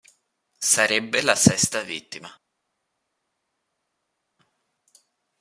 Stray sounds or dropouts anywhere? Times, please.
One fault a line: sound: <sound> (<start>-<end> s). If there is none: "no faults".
no faults